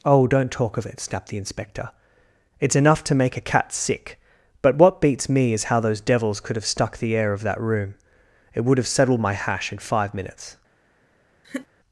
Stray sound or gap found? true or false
true